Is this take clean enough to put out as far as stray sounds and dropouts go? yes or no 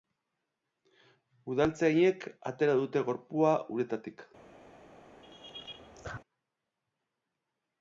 no